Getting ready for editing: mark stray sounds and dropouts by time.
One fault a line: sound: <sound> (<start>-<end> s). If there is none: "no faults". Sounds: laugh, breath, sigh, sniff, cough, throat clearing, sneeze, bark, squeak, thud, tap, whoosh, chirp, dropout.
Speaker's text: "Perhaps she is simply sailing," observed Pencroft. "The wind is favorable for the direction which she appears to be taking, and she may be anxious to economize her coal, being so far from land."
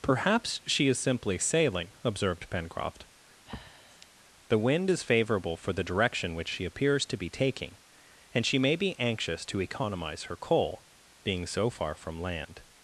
sound: breath (3.5-4.1 s)